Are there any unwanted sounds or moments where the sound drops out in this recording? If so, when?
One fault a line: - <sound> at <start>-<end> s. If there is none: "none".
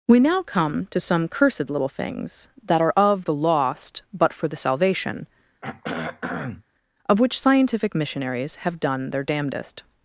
- throat clearing at 5.6-6.6 s